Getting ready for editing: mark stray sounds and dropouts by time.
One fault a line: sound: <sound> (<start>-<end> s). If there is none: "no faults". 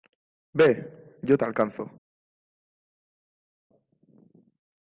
no faults